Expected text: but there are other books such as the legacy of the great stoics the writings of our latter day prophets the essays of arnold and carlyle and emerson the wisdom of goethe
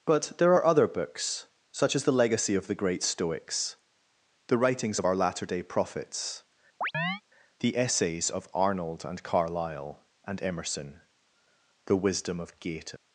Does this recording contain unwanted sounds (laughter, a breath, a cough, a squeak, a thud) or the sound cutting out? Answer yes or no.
yes